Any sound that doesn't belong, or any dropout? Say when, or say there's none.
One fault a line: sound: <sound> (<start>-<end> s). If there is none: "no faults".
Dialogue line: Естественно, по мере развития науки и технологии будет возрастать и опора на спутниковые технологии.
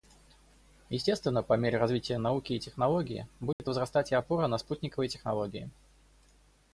sound: dropout (3.5-3.6 s)